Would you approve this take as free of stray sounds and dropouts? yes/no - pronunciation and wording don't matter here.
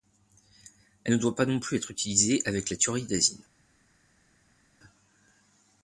yes